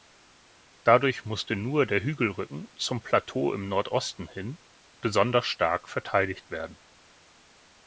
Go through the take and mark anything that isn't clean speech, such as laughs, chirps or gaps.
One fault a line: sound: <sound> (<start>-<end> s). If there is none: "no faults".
no faults